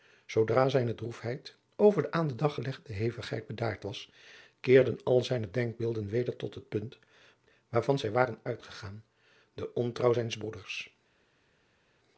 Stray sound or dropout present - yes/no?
no